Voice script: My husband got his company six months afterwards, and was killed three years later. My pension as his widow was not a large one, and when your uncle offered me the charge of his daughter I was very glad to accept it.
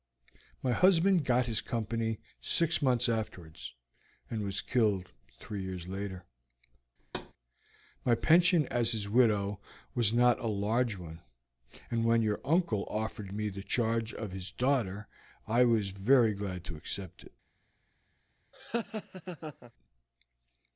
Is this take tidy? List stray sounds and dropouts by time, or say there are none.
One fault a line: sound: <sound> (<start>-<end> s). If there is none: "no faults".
sound: thud (7.0-7.3 s)
sound: laugh (18.5-19.7 s)